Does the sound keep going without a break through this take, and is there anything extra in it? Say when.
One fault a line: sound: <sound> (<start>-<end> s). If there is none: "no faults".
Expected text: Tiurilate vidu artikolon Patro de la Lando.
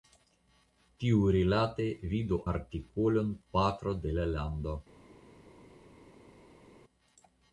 no faults